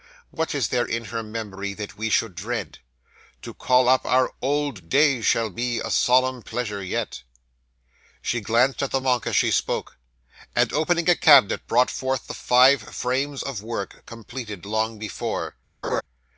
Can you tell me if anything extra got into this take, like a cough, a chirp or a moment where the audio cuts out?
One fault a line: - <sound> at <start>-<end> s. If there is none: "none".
- laugh at 15.8-16.0 s